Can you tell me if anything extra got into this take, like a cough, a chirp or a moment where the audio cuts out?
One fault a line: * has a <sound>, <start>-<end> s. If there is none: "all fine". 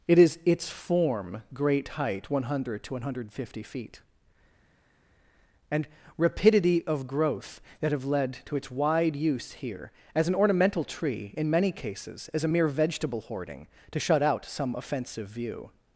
all fine